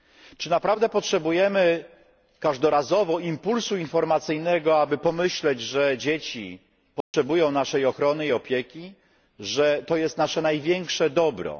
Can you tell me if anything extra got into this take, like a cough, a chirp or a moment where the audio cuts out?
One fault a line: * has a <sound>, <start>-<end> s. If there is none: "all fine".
* has a dropout, 7.0-7.1 s